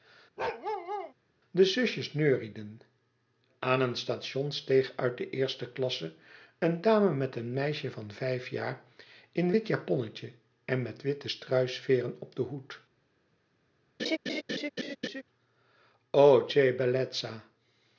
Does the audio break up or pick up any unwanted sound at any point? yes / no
yes